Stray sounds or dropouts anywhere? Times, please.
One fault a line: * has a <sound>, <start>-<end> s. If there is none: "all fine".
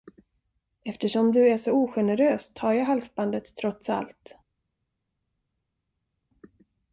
all fine